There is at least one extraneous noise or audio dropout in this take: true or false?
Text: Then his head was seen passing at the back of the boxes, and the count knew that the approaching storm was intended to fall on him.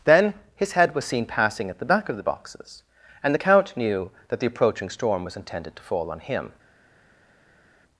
false